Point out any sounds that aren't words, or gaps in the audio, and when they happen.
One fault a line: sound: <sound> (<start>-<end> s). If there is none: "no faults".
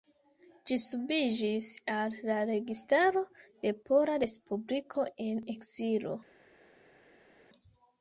no faults